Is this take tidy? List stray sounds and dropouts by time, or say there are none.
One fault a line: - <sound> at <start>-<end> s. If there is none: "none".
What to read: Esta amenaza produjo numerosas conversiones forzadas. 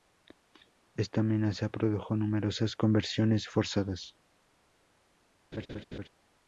- laugh at 5.5-6.1 s